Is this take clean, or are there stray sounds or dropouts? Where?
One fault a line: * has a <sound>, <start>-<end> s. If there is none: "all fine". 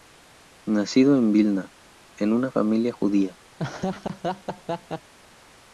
* has a laugh, 3.6-5.1 s